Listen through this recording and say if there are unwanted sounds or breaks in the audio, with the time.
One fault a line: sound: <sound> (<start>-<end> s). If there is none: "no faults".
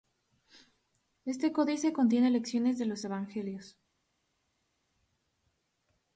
no faults